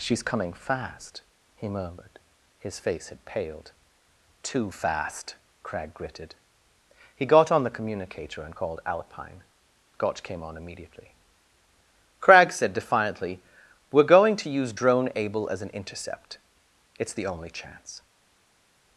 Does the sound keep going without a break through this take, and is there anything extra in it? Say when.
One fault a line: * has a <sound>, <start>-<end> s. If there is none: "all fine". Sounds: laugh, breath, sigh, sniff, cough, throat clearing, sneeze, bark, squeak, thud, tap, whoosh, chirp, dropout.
all fine